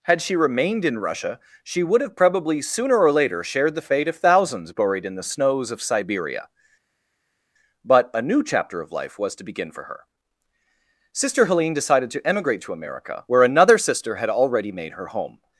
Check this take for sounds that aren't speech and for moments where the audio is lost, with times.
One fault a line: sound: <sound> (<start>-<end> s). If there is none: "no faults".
no faults